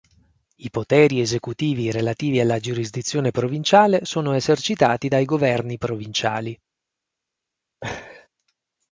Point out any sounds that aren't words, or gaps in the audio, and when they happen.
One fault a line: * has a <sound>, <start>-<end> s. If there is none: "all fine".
* has a laugh, 7.8-8.3 s